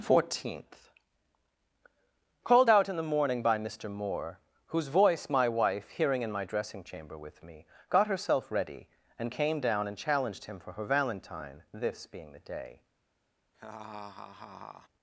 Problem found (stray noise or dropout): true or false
true